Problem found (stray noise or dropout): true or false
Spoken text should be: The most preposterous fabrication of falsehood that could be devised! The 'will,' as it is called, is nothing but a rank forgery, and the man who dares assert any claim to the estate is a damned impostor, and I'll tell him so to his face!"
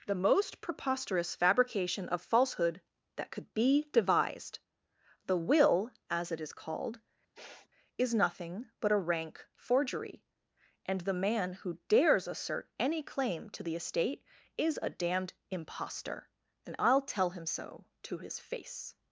true